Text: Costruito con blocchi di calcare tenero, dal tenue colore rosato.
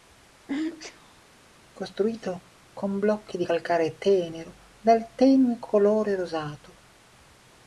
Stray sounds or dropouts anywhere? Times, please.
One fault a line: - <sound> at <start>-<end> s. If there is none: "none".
- sneeze at 0.5-1.2 s